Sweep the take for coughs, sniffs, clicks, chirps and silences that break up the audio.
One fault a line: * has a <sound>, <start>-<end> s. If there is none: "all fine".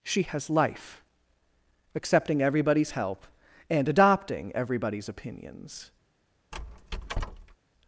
* has a squeak, 6.5-7.6 s